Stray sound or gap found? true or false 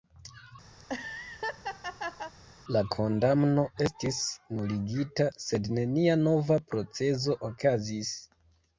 true